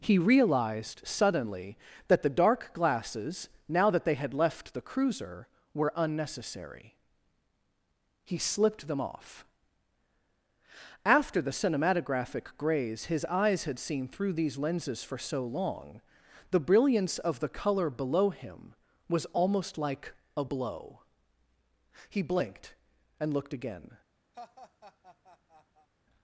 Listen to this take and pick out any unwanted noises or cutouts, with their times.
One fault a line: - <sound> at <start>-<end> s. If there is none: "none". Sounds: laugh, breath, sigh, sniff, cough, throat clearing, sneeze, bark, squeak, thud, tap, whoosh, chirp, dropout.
- laugh at 24.3-25.9 s